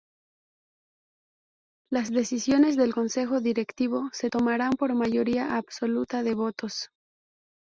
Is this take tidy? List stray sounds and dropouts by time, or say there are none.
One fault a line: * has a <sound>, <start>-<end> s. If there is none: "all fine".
all fine